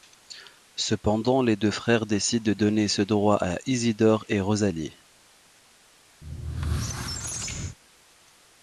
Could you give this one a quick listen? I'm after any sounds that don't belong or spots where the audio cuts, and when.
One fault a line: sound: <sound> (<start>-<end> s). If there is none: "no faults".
sound: squeak (6.2-7.8 s)